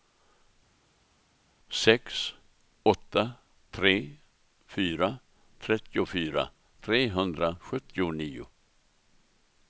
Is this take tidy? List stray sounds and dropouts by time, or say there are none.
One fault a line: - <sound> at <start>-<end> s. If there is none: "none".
none